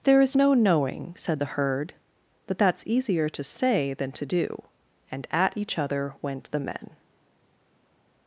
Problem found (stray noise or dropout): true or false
false